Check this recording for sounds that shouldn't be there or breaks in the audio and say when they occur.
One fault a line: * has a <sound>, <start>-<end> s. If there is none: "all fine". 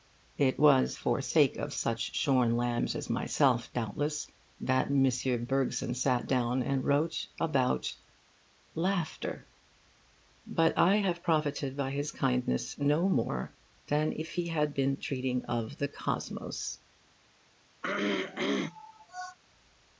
* has a throat clearing, 17.8-19.4 s